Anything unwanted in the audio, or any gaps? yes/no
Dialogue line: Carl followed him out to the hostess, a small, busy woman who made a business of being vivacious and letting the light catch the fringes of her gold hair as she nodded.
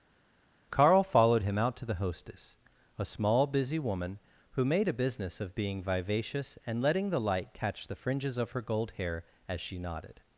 no